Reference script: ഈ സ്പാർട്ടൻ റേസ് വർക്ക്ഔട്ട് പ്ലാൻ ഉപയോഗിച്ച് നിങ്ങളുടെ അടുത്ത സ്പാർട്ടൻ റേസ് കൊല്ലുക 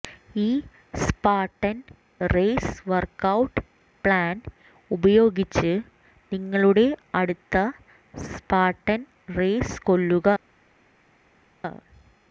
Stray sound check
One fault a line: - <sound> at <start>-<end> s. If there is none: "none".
none